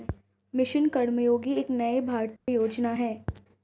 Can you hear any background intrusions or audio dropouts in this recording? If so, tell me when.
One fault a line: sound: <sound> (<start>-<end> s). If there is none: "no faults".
sound: dropout (2.4-2.5 s)